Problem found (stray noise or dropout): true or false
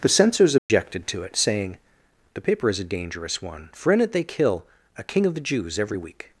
true